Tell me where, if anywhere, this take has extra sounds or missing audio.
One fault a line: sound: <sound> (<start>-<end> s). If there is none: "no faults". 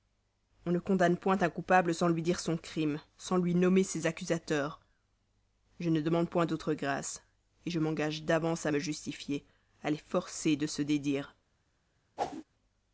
sound: whoosh (12.2-12.4 s)